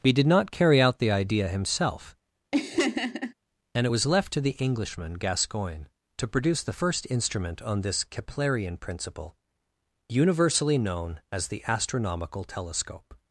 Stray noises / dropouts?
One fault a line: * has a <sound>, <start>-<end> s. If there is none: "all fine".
* has a laugh, 2.5-3.3 s